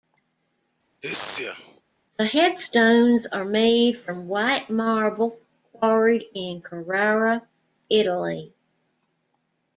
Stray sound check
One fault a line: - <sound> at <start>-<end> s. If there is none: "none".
- sneeze at 1.0-1.8 s